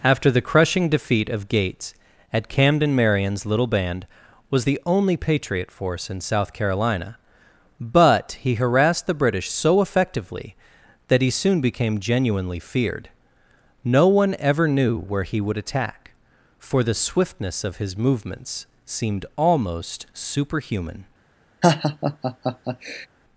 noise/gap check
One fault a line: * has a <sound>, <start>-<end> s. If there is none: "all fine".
* has a laugh, 21.6-23.1 s